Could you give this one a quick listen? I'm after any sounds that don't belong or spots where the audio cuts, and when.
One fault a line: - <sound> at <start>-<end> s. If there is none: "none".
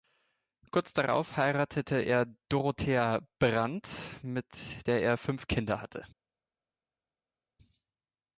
none